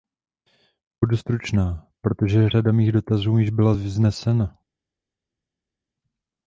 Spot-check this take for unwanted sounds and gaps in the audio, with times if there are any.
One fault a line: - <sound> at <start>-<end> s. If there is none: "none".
none